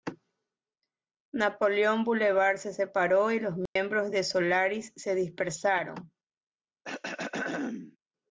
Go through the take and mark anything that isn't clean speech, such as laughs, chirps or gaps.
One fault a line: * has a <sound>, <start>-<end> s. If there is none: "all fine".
* has a dropout, 3.7-3.8 s
* has a throat clearing, 6.8-8.0 s